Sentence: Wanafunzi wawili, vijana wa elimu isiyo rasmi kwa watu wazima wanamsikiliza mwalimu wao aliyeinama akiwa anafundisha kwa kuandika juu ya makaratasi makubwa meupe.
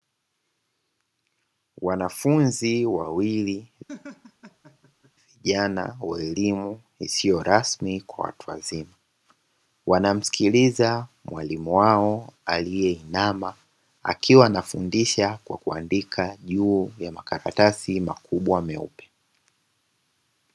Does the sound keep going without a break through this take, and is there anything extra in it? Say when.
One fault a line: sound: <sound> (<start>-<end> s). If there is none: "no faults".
sound: laugh (3.9-5.1 s)